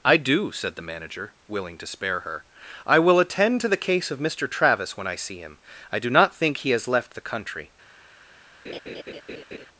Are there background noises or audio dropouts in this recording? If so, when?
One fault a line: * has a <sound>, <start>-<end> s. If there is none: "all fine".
* has a laugh, 8.6-9.7 s